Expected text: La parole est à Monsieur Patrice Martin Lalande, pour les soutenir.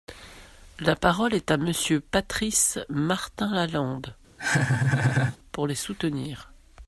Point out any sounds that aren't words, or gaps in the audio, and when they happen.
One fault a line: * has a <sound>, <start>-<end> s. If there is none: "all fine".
* has a laugh, 4.4-5.4 s